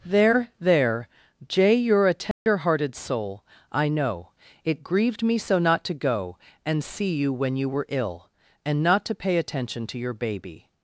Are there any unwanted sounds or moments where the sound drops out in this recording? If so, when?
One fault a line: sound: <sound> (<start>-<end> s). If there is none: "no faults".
sound: dropout (2.3-2.5 s)